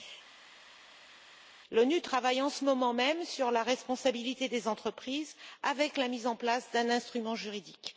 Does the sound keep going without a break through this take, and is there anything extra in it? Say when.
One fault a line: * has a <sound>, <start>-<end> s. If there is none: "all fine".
all fine